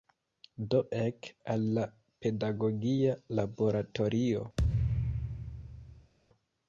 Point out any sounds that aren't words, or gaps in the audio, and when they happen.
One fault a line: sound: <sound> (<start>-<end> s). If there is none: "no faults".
sound: thud (4.6-6.1 s)